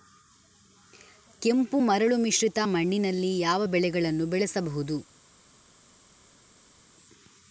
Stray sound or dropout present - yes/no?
no